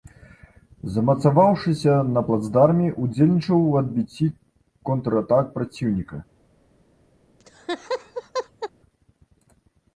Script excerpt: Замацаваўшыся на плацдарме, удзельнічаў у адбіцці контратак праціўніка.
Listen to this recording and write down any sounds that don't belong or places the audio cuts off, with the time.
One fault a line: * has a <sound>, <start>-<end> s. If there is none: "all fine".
* has a laugh, 7.4-8.7 s